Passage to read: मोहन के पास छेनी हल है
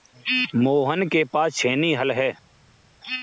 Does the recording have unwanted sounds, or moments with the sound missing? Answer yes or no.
no